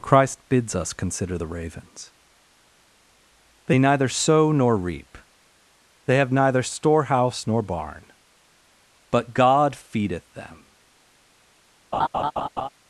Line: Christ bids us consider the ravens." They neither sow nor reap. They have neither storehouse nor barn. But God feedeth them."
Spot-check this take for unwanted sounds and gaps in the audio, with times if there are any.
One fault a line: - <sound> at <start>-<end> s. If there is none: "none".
- laugh at 11.9-12.7 s